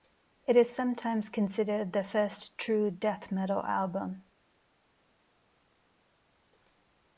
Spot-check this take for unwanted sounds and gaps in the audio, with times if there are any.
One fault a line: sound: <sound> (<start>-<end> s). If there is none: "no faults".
no faults